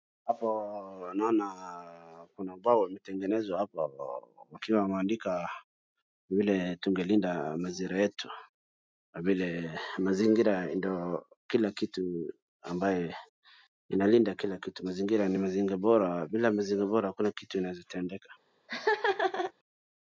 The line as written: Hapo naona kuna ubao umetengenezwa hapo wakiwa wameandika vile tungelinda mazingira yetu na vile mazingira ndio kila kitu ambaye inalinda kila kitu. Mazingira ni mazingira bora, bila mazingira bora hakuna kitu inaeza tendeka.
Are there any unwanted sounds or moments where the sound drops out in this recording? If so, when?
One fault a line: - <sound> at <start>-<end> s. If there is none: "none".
- laugh at 18.7-19.5 s